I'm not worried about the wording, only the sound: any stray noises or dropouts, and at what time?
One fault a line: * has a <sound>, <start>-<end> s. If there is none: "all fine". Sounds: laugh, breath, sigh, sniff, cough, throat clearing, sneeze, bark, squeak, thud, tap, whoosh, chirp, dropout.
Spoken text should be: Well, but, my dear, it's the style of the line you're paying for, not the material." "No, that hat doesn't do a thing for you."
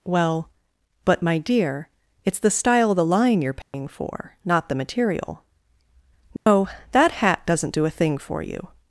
* has a dropout, 3.6-3.7 s
* has a dropout, 6.4-6.5 s